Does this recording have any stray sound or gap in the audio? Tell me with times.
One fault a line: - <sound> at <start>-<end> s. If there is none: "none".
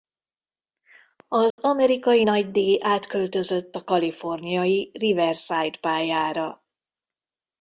- dropout at 1.5-1.6 s